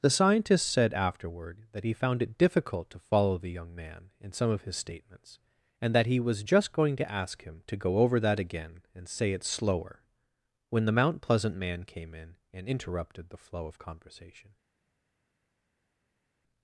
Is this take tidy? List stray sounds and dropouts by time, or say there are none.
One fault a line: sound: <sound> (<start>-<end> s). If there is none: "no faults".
no faults